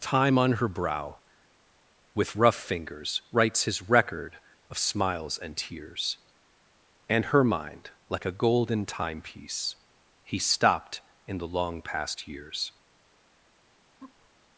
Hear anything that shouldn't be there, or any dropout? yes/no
yes